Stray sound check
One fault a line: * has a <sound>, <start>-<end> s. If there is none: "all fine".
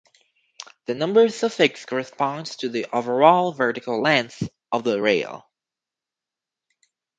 all fine